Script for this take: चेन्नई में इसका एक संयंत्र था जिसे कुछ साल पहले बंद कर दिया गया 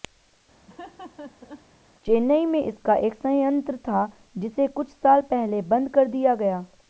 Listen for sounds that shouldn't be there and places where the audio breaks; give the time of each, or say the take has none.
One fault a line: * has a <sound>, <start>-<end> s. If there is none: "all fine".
* has a laugh, 0.7-1.7 s